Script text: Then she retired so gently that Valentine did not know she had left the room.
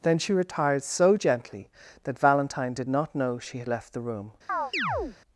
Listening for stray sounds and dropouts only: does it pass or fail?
fail